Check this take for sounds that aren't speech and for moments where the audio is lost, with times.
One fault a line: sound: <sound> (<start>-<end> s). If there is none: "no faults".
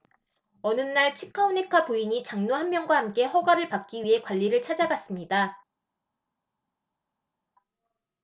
no faults